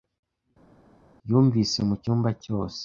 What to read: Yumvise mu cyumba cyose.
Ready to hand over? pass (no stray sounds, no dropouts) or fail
pass